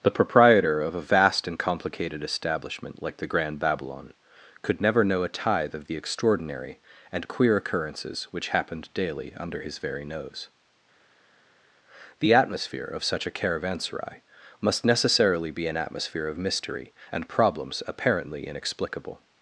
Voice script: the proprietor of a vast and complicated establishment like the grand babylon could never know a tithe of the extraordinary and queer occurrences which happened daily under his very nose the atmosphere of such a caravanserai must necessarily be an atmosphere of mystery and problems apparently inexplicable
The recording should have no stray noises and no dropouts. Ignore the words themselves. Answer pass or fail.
pass